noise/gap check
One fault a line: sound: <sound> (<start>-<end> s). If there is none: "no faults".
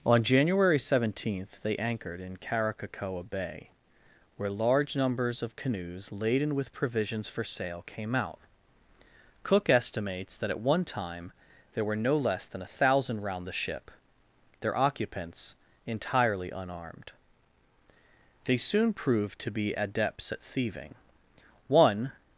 no faults